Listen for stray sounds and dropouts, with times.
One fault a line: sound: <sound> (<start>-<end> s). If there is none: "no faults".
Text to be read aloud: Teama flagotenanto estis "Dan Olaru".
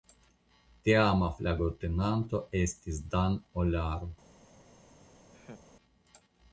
sound: laugh (5.3-5.7 s)